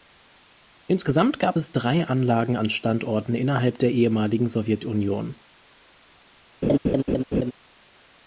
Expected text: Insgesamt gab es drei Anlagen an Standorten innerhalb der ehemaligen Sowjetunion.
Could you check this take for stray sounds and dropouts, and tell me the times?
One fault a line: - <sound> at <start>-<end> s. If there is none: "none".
- laugh at 6.6-7.5 s